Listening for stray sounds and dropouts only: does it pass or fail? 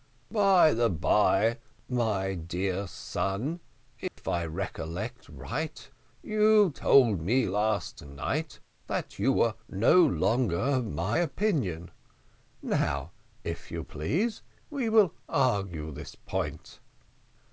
fail